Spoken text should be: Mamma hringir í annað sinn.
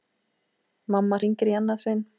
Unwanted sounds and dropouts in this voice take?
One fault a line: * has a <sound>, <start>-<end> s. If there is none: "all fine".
all fine